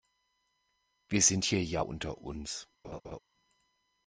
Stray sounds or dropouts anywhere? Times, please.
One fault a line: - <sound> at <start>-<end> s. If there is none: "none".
- laugh at 2.8-3.2 s